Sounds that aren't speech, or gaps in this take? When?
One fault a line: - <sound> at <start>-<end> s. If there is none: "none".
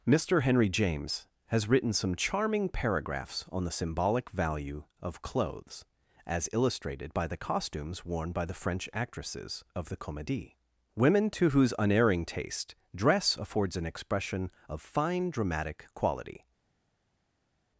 none